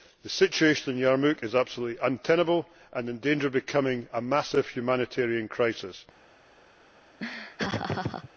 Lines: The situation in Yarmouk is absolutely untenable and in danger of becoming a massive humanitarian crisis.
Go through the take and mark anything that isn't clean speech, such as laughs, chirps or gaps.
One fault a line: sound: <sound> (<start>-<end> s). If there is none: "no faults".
sound: laugh (7.2-8.3 s)